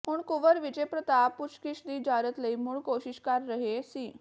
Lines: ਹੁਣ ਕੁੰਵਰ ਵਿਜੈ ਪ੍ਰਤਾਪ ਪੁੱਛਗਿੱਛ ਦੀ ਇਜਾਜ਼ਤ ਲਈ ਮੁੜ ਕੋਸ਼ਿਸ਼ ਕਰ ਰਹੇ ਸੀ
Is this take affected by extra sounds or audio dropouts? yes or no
no